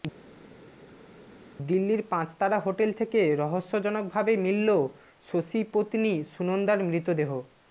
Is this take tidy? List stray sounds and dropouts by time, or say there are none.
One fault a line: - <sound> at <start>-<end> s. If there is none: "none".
none